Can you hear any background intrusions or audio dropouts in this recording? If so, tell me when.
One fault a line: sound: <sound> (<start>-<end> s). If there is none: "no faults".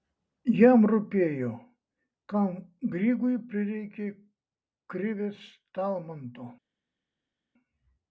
no faults